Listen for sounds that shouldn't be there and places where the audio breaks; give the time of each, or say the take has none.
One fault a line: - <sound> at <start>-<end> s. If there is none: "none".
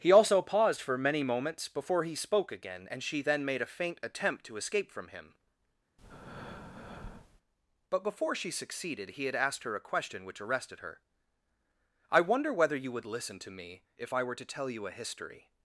- breath at 6.0-7.4 s